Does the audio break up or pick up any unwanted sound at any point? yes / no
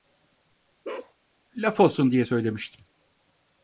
yes